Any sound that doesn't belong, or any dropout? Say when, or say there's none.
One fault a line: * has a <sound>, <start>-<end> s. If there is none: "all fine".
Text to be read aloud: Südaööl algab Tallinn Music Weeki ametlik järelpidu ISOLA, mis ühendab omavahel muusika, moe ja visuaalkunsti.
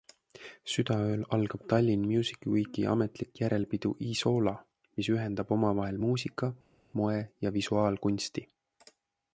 all fine